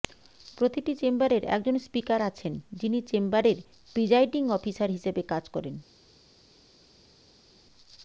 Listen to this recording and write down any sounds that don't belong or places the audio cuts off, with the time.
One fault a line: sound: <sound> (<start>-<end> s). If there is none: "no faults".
no faults